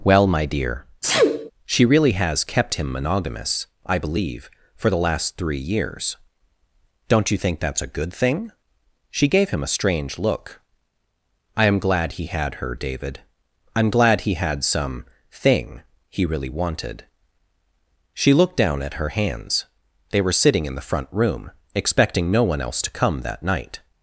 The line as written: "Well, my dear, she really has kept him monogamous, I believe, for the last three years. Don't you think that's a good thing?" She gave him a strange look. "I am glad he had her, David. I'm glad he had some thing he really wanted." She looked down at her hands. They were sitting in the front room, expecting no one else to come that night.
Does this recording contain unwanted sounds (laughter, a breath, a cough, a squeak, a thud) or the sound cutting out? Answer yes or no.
yes